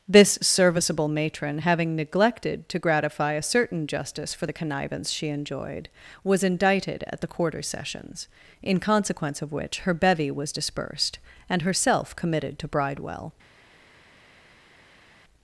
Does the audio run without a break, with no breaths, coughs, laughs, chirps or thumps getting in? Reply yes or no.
yes